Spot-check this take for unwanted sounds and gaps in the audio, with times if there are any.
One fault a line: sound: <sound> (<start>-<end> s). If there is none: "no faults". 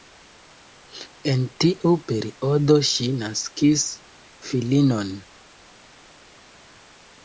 no faults